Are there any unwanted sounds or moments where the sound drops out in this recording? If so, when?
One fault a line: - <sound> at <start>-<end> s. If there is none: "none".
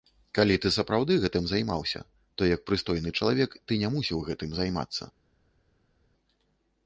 none